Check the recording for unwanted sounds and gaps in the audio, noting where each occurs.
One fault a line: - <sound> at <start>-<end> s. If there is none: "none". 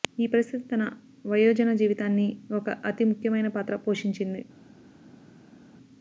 none